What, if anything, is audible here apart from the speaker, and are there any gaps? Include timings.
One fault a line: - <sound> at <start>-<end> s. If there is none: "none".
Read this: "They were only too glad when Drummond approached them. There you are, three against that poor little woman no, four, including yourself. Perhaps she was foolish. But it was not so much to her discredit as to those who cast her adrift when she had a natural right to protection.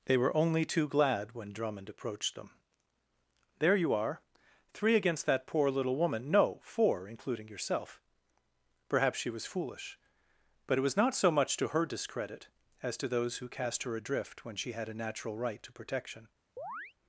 - chirp at 16.6-16.9 s